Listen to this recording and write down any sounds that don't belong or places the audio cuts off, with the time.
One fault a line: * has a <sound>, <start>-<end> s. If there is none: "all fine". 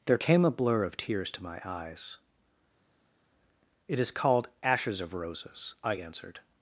all fine